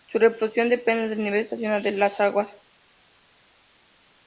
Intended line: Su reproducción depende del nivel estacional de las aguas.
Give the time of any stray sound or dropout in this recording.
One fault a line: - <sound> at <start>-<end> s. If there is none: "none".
none